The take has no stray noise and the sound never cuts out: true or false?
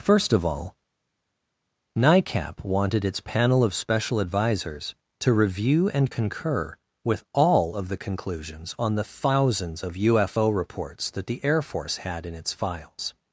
true